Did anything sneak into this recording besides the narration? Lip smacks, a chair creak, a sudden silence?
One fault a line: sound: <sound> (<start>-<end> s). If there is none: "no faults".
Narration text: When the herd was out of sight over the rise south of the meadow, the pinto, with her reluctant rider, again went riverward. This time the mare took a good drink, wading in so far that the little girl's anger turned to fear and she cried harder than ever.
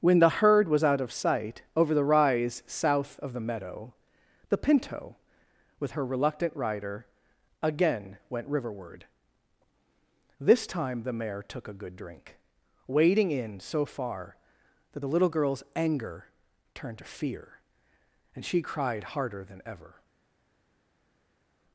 no faults